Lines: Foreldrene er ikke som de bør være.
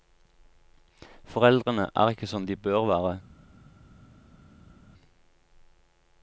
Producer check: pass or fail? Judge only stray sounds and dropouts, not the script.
pass